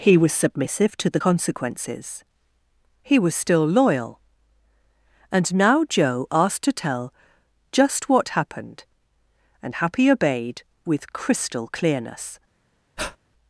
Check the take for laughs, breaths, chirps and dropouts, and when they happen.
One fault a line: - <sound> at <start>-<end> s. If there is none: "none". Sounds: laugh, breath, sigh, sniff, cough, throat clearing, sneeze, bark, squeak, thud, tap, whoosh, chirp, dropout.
- breath at 13.0-13.2 s